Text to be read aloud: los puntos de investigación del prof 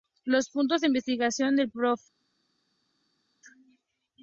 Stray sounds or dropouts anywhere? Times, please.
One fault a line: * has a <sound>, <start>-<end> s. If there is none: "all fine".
all fine